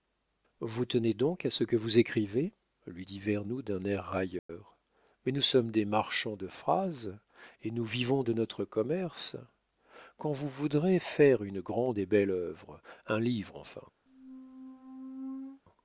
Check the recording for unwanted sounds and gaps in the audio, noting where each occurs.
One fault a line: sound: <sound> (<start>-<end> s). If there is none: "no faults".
sound: dropout (4.4-4.5 s)
sound: squeak (14.1-15.6 s)